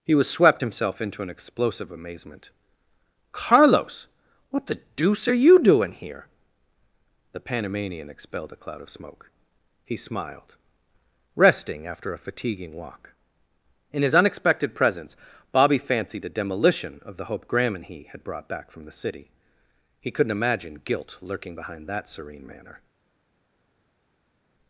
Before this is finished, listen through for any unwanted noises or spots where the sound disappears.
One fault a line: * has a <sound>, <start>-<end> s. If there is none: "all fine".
all fine